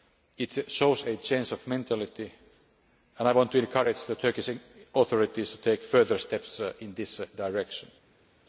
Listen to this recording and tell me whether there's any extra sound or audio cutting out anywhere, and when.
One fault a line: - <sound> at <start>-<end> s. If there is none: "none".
none